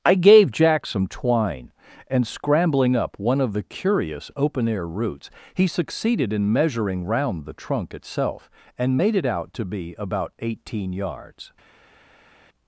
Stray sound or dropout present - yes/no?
no